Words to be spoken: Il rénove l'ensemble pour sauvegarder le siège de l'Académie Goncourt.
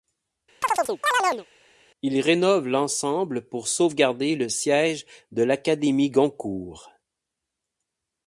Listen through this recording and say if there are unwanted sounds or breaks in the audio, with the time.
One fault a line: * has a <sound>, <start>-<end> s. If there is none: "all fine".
* has a chirp, 0.6-1.5 s